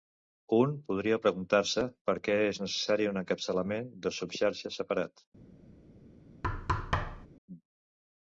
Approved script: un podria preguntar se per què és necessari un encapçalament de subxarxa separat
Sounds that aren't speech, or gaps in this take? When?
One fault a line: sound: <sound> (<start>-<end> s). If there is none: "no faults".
sound: thud (6.4-7.3 s)